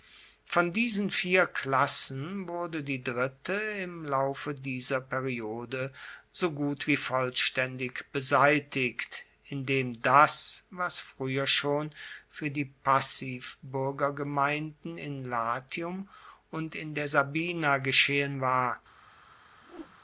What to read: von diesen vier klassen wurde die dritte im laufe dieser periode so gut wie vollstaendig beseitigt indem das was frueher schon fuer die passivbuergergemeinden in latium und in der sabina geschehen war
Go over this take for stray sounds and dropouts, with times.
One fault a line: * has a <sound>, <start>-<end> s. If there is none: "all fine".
* has a whoosh, 19.6-20.0 s